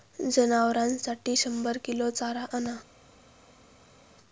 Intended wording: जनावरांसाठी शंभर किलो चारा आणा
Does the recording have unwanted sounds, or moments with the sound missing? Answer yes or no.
no